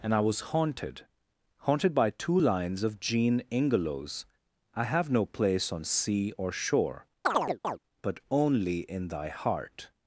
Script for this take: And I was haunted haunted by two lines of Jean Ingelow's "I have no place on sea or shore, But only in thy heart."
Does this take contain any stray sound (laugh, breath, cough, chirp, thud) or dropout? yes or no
yes